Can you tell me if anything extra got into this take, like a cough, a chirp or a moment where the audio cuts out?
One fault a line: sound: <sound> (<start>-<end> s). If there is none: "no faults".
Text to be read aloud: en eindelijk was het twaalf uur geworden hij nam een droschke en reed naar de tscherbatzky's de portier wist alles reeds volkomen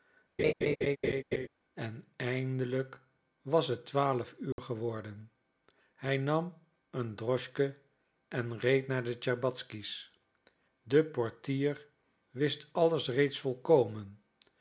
sound: laugh (0.4-1.5 s)
sound: dropout (4.5-4.6 s)